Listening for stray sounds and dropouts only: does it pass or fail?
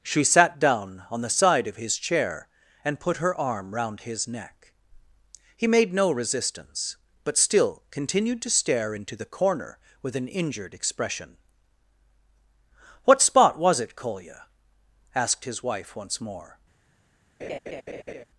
fail